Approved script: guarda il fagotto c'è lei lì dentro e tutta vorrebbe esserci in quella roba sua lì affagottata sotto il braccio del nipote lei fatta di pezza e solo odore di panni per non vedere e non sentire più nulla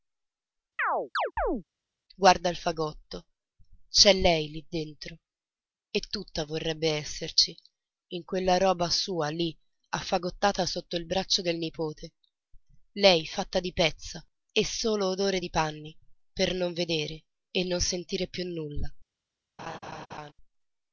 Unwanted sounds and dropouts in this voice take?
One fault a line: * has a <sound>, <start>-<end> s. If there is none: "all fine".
* has a chirp, 0.8-1.6 s
* has a laugh, 19.6-20.3 s